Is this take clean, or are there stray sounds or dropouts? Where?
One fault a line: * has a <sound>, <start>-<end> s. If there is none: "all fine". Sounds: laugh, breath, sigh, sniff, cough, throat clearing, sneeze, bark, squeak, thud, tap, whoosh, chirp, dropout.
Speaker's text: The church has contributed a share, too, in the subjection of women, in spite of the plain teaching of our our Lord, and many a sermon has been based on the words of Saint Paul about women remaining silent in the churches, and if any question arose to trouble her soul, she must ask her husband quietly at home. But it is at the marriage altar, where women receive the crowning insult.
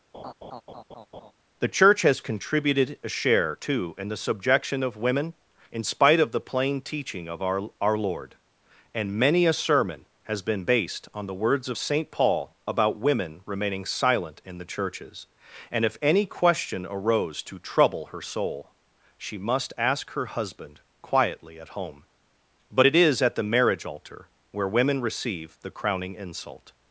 * has a laugh, 0.1-1.3 s